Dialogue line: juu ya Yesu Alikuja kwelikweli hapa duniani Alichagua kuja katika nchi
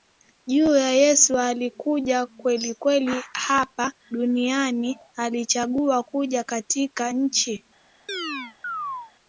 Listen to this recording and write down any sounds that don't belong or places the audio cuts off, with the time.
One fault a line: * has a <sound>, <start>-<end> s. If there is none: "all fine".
* has a chirp, 8.1-9.1 s